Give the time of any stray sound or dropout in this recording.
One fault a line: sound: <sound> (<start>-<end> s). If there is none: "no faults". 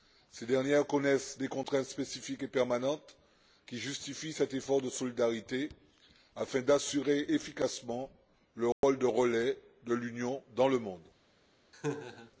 sound: dropout (8.7-8.8 s)
sound: laugh (11.7-12.3 s)